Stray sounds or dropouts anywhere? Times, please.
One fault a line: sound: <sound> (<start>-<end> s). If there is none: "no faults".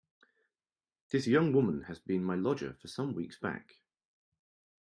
no faults